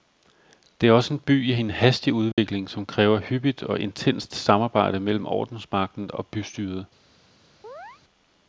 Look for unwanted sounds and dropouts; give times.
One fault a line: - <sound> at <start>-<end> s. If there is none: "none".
- dropout at 2.3-2.4 s
- chirp at 7.6-8.0 s